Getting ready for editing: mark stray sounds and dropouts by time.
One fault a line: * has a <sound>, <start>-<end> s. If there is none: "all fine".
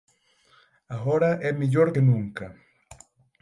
all fine